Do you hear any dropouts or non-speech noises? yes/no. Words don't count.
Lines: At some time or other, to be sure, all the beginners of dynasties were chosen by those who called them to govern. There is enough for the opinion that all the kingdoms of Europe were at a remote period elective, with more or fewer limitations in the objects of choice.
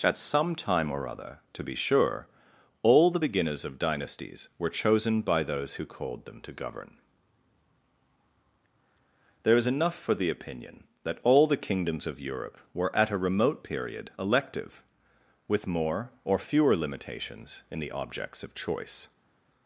no